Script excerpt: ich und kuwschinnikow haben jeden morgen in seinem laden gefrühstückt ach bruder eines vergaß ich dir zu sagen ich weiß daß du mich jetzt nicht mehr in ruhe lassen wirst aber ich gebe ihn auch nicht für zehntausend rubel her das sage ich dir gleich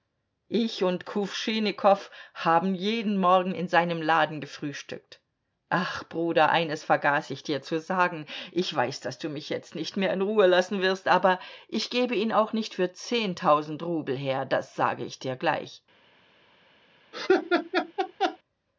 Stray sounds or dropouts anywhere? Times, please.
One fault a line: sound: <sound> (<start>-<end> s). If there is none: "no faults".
sound: laugh (17.1-18.4 s)